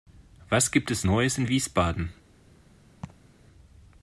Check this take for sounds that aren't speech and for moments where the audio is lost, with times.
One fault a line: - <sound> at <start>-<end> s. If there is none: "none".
- laugh at 3.0-3.3 s